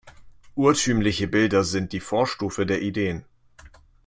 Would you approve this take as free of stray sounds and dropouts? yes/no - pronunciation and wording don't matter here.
yes